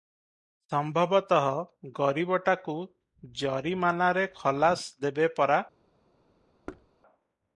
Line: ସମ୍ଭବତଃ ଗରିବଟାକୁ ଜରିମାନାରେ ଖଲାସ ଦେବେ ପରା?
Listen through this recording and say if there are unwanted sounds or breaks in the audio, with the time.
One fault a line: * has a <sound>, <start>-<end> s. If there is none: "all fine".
* has a thud, 6.7-6.9 s